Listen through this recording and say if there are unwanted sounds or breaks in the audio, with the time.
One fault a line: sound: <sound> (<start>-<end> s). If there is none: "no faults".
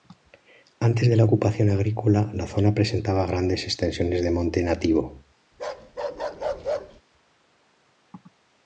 sound: bark (5.5-7.0 s)